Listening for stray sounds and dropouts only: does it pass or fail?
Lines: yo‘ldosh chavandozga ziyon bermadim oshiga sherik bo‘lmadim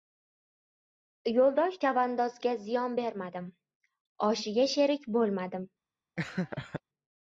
fail